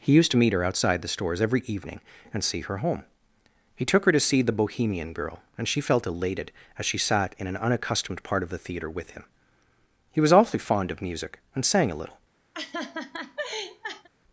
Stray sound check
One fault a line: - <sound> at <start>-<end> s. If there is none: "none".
- laugh at 12.5-14.1 s